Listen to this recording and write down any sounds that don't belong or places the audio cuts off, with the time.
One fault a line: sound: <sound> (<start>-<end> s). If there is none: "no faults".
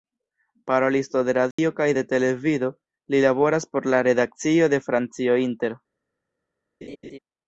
sound: dropout (1.5-1.6 s)
sound: laugh (6.8-7.2 s)